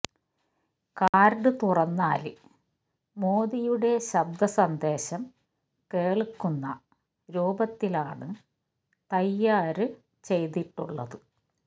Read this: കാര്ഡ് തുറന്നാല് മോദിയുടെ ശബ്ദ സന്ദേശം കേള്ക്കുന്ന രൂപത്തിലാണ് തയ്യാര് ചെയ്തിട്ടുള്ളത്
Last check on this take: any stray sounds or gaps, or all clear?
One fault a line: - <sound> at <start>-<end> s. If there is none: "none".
- dropout at 1.1-1.1 s